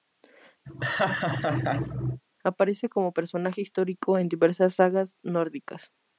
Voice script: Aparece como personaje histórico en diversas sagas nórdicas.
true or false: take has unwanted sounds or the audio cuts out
true